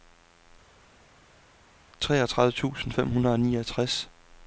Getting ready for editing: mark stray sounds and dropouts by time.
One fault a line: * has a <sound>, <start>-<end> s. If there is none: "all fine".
all fine